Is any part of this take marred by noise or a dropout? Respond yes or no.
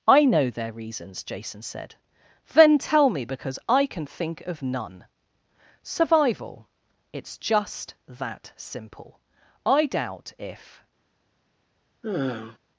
yes